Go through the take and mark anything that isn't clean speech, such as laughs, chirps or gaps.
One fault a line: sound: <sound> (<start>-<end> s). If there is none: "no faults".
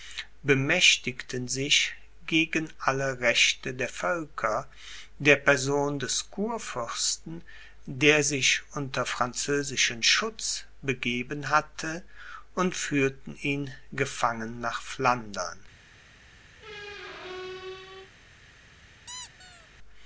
sound: squeak (16.6-18.1 s)
sound: squeak (19.1-19.7 s)